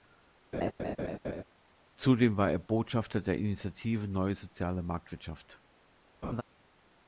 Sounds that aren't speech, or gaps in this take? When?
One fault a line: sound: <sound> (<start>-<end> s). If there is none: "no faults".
sound: laugh (0.5-1.4 s)
sound: laugh (6.2-6.4 s)